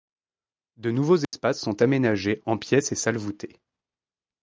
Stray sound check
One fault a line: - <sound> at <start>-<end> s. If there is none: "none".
- dropout at 1.2-1.3 s